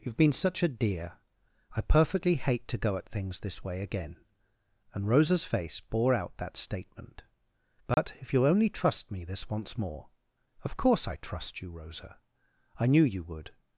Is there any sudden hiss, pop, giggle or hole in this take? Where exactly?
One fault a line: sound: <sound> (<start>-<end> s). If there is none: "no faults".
sound: dropout (7.9-8.0 s)